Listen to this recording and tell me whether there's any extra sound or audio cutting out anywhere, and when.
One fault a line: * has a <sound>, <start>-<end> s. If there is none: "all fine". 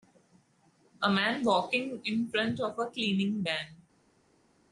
all fine